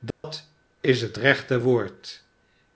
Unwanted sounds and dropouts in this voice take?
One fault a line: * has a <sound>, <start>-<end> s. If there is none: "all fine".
* has a dropout, 0.1-0.2 s